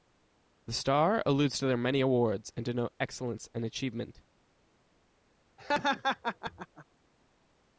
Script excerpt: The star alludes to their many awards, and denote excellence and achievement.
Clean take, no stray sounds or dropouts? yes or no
no